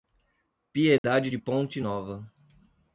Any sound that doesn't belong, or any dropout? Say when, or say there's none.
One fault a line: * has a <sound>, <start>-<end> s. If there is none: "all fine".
* has a dropout, 1.0-1.0 s